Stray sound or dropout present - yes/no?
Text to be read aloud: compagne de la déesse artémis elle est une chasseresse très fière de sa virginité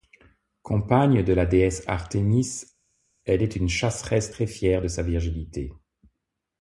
no